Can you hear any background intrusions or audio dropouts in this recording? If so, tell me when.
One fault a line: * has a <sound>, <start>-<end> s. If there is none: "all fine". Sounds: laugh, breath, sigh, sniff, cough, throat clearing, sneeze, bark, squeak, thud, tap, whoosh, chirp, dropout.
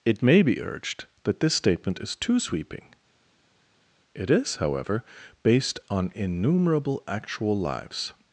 all fine